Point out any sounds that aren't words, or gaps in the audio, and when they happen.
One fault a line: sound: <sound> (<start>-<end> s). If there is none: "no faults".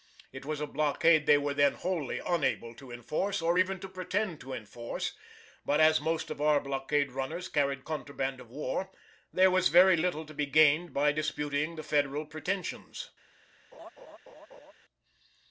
sound: laugh (13.7-14.7 s)